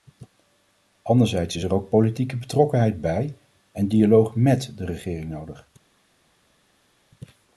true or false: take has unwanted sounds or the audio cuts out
false